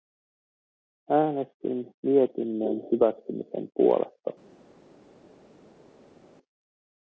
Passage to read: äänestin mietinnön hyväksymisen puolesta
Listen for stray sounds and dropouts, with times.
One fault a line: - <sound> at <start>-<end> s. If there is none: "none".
none